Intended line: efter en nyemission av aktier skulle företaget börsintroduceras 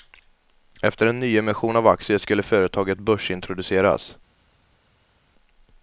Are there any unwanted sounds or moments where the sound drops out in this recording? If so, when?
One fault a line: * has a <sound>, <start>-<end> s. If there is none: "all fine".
all fine